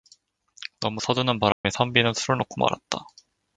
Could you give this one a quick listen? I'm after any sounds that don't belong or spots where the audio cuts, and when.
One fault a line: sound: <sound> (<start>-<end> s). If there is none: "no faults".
sound: dropout (1.5-1.6 s)